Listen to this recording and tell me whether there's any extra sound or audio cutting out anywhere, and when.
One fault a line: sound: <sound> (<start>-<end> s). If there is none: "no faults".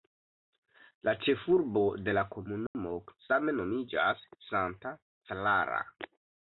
sound: dropout (2.7-2.8 s)